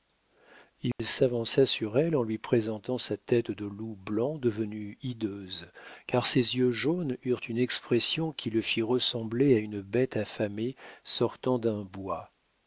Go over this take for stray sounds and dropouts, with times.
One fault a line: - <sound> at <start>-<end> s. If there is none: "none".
- dropout at 0.9-1.0 s